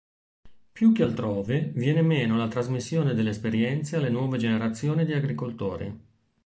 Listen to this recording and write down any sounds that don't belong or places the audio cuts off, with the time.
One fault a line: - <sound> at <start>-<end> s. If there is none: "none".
none